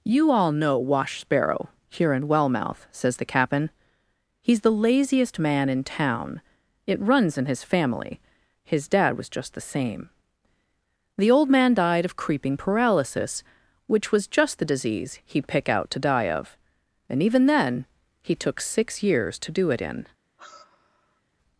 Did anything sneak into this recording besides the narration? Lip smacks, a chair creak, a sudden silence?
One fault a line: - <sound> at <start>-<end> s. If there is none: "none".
- sigh at 20.4-21.2 s